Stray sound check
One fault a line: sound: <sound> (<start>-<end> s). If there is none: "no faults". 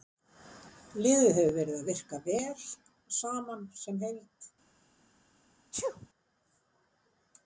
sound: sneeze (5.7-6.1 s)